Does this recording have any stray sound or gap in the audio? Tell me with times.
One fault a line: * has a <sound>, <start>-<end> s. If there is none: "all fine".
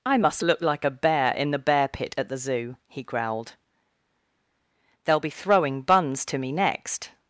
all fine